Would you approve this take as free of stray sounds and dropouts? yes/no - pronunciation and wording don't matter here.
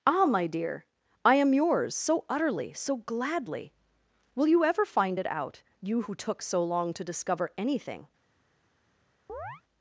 no